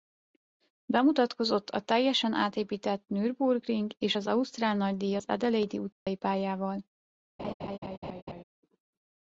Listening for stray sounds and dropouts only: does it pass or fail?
fail